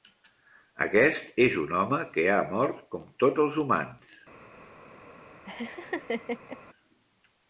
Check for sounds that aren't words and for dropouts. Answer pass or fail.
fail